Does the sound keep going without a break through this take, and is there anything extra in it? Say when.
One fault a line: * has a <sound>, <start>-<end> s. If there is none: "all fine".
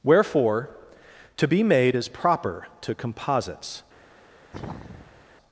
* has a sneeze, 4.5-5.3 s